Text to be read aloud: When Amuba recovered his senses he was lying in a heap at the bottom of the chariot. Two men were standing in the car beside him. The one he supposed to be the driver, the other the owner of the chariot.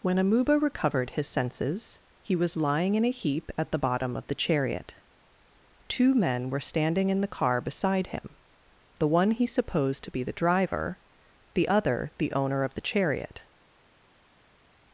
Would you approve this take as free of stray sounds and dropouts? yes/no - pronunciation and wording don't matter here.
yes